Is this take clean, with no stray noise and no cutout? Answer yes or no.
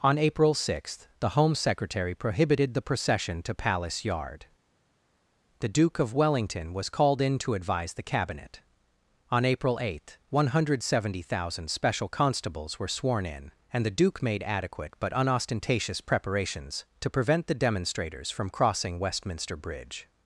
yes